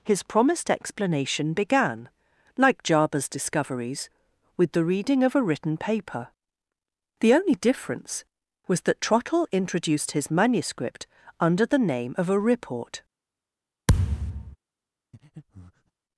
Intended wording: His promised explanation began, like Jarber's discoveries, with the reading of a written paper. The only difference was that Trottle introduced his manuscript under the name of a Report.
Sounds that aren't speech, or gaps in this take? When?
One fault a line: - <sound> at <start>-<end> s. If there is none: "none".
- thud at 13.9-14.6 s
- breath at 15.1-15.9 s